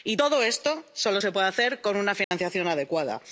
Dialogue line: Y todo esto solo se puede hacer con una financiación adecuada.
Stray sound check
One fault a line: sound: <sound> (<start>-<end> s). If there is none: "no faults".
sound: dropout (2.2-2.3 s)